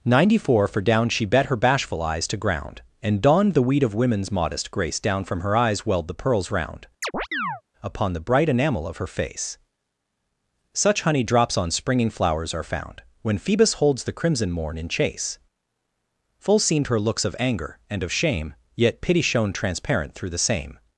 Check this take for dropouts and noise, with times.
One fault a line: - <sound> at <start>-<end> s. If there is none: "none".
- chirp at 7.0-7.6 s